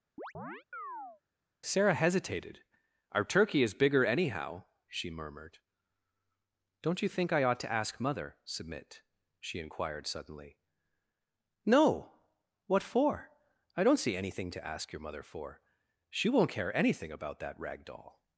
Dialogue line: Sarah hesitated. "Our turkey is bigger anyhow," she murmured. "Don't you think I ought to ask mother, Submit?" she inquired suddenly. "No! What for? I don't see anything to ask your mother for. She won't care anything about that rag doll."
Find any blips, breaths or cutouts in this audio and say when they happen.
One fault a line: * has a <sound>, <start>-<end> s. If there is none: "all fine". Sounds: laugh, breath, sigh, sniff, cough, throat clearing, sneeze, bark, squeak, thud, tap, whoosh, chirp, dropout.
* has a chirp, 0.2-1.2 s